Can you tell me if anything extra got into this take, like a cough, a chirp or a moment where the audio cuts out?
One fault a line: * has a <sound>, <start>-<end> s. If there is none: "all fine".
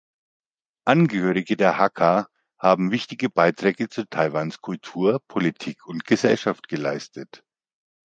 all fine